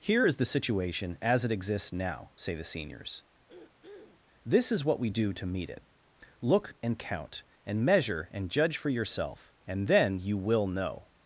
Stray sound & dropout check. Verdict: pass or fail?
fail